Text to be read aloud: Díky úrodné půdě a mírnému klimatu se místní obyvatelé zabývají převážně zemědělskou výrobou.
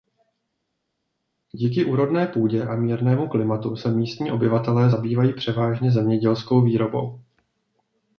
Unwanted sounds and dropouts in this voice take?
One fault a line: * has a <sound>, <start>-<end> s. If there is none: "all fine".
all fine